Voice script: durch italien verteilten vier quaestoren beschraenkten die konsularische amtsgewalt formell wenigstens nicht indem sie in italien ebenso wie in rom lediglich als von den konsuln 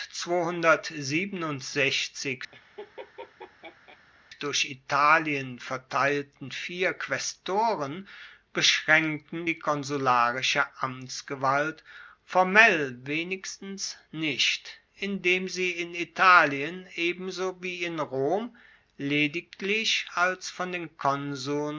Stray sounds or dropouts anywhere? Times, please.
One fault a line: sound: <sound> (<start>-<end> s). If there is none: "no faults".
sound: laugh (2.5-4.0 s)